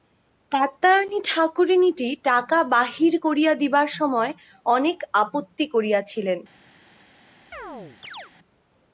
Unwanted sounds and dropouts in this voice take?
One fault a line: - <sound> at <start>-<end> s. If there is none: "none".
- chirp at 7.5-8.3 s